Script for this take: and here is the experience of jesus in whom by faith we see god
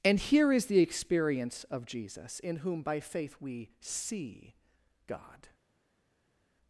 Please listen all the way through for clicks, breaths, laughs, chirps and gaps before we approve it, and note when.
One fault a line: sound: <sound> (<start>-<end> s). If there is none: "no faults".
no faults